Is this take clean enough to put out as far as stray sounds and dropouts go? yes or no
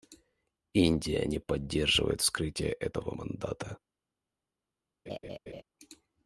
no